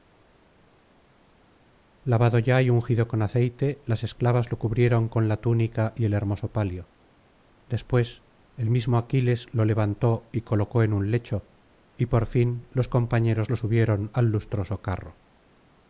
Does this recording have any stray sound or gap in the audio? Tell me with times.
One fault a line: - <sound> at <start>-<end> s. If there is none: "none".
none